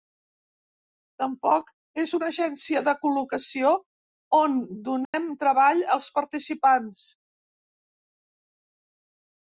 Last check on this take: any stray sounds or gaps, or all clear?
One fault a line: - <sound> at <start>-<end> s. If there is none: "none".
- dropout at 5.0-5.1 s